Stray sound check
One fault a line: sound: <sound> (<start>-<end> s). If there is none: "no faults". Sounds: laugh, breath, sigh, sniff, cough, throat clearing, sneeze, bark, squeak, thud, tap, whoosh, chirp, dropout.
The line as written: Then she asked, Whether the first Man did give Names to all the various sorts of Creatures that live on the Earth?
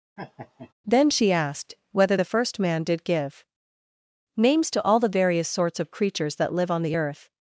sound: laugh (0.2-0.7 s)